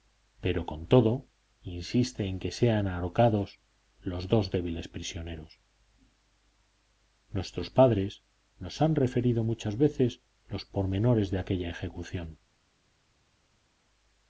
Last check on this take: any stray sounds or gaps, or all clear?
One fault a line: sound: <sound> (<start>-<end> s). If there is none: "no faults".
no faults